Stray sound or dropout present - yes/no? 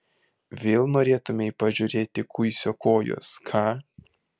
no